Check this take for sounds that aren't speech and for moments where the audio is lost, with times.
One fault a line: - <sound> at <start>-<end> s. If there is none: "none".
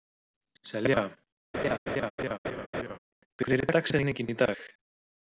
- laugh at 1.5-3.0 s